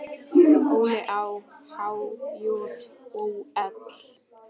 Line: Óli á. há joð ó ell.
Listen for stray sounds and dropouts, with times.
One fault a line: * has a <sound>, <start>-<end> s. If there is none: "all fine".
all fine